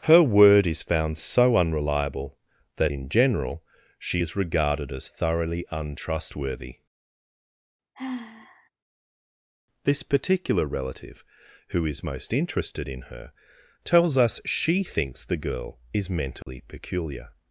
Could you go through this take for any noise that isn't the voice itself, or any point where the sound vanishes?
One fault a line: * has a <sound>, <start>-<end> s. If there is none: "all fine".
* has a sigh, 7.9-8.7 s
* has a dropout, 16.4-16.5 s